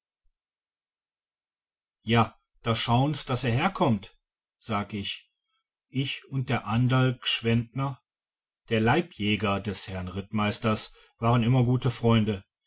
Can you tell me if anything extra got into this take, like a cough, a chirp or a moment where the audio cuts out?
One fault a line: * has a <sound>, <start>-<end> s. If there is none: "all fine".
all fine